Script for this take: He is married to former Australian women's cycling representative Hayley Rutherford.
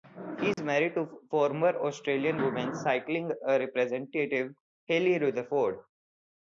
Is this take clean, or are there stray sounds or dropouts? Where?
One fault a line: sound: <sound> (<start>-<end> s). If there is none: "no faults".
sound: dropout (0.5-0.6 s)